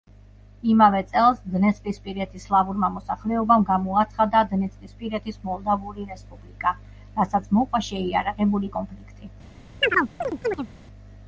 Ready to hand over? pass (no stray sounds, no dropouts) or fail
fail